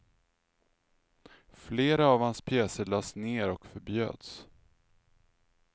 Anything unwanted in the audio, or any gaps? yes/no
no